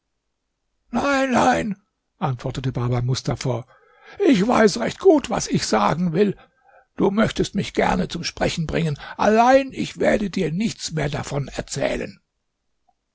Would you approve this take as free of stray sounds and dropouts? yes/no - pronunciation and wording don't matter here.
yes